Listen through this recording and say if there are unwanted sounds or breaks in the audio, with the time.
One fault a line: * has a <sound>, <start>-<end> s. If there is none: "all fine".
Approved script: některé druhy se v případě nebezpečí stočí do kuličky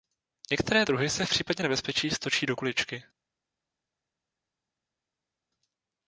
all fine